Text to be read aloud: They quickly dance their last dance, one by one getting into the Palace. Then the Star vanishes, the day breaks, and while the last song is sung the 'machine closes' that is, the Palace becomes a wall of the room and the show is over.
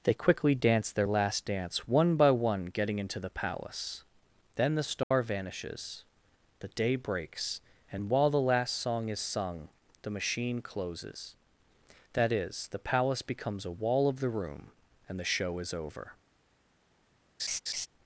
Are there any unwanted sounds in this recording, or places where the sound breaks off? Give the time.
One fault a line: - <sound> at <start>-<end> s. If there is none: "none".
- dropout at 5.0-5.1 s
- laugh at 17.4-17.9 s